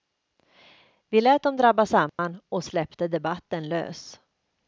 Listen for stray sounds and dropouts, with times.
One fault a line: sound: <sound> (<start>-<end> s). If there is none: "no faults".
sound: dropout (2.1-2.2 s)